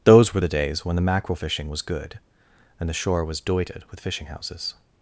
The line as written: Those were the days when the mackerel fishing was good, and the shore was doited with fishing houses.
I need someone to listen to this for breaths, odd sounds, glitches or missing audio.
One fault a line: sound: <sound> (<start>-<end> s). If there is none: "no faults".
no faults